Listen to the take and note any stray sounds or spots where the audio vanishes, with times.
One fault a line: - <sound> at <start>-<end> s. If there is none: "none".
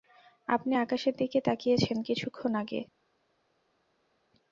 none